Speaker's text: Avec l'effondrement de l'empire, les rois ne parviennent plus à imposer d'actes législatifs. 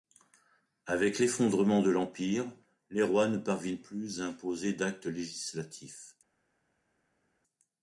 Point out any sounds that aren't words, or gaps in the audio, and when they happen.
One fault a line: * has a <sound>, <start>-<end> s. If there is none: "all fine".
all fine